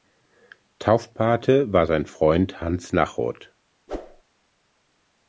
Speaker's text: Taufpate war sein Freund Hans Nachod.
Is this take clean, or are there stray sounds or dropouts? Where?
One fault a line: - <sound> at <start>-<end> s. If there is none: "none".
- whoosh at 3.9-4.2 s